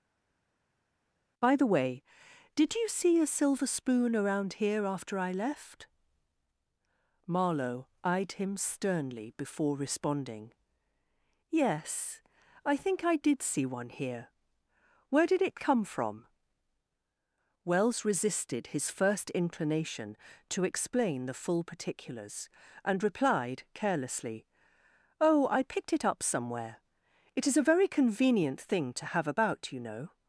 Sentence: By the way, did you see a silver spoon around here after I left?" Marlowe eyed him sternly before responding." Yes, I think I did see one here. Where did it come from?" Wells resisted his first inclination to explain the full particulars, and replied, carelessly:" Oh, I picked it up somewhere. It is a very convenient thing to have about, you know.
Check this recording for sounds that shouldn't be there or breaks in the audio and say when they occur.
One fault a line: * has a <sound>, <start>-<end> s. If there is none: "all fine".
all fine